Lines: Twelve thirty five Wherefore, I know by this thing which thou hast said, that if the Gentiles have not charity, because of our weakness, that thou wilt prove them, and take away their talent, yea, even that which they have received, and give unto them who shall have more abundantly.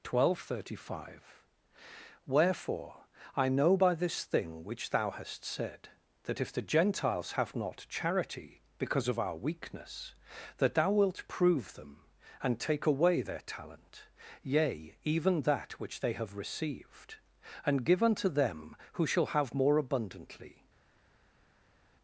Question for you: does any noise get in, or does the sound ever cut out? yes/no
no